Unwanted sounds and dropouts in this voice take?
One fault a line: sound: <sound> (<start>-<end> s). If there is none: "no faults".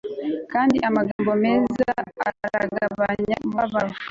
sound: dropout (1.1-1.2 s)